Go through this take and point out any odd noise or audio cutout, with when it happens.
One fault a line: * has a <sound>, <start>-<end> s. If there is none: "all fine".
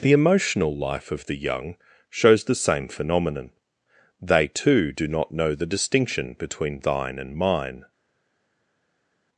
all fine